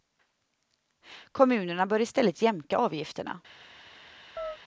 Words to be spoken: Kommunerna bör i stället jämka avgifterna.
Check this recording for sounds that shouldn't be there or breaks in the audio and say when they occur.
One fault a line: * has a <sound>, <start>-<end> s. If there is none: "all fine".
* has a chirp, 4.4-4.6 s